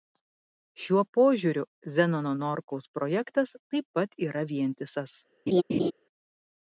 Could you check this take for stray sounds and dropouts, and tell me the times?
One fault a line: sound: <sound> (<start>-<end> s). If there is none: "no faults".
sound: laugh (5.5-5.9 s)